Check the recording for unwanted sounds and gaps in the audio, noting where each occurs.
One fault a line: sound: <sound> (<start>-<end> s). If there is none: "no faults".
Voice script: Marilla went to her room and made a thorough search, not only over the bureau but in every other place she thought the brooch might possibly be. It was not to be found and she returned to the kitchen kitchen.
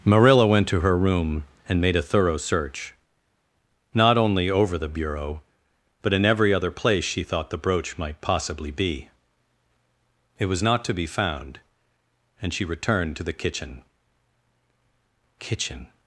no faults